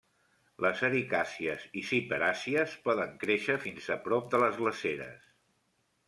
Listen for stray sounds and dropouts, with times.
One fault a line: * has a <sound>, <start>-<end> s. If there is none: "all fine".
all fine